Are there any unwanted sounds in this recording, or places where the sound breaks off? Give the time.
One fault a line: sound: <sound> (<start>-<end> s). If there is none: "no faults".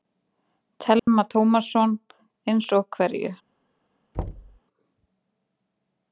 sound: dropout (1.0-1.1 s)
sound: thud (4.1-4.6 s)